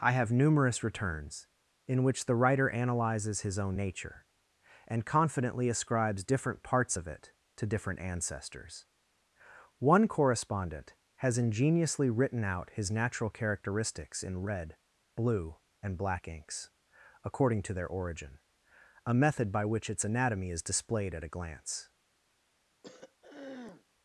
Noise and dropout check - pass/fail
fail